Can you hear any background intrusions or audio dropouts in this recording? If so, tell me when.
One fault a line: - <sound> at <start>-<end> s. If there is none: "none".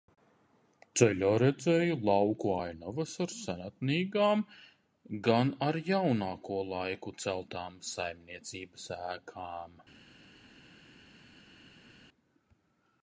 none